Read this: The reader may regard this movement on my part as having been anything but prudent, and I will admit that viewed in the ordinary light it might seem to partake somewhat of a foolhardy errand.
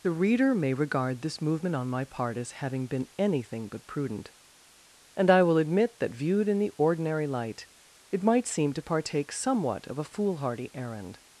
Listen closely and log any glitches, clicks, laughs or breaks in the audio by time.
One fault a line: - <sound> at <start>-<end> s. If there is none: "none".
none